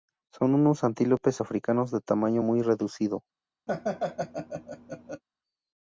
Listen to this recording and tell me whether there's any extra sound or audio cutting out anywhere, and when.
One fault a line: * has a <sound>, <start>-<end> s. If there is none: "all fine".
* has a laugh, 3.7-5.2 s